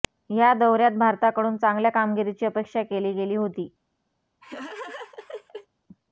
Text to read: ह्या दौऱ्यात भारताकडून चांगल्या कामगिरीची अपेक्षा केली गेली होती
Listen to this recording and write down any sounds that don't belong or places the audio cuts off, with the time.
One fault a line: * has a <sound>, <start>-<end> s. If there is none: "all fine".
* has a laugh, 4.4-5.7 s